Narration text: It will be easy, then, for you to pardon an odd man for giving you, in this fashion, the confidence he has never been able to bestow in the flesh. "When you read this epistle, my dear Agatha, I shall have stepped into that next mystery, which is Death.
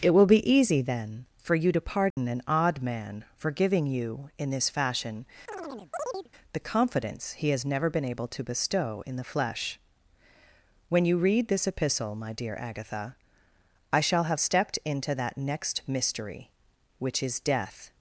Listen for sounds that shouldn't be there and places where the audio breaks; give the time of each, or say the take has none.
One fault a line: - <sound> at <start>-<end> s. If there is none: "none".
- dropout at 2.1-2.2 s
- chirp at 5.5-6.3 s